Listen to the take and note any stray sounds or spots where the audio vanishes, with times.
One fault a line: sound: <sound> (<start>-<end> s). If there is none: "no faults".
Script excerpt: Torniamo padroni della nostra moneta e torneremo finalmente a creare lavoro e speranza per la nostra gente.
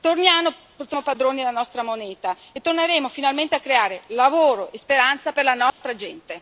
sound: dropout (5.7-5.8 s)